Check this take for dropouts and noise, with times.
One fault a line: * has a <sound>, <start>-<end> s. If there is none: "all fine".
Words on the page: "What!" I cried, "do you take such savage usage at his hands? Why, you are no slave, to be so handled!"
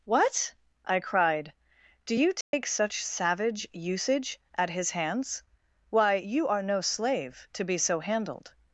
* has a dropout, 2.4-2.5 s